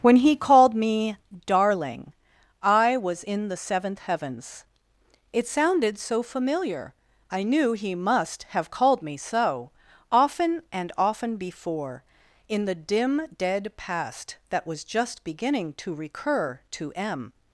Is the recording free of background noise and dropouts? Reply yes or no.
yes